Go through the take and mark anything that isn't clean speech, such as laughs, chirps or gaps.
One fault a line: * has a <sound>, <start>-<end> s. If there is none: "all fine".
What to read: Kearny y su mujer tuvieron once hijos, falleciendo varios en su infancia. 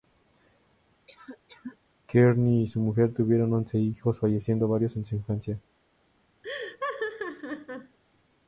* has a cough, 1.1-1.8 s
* has a laugh, 6.4-8.0 s